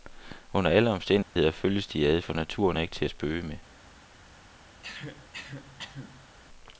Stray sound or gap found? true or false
true